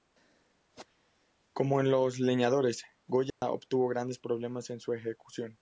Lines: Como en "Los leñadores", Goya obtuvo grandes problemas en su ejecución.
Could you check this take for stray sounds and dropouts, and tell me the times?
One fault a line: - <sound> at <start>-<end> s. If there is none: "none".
- dropout at 3.3-3.4 s